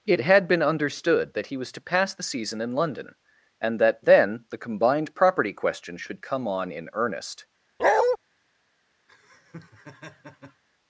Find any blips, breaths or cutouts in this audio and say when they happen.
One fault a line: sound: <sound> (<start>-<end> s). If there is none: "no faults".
sound: bark (7.8-8.2 s)
sound: laugh (9.1-10.6 s)